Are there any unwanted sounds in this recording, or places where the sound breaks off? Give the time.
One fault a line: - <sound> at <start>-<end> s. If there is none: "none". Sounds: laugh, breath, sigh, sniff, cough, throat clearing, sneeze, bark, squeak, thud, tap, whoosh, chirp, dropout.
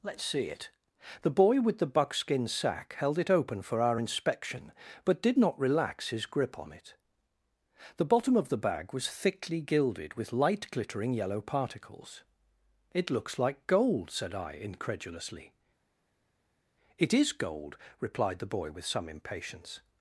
none